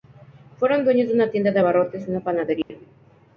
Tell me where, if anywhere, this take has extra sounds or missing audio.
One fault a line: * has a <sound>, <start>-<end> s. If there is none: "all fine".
* has a dropout, 2.6-2.7 s